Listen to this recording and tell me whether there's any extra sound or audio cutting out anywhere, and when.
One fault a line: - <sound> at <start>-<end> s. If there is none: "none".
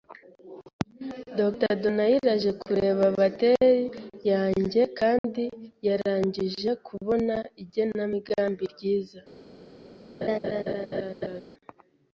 - dropout at 5.2-5.2 s
- laugh at 10.2-11.4 s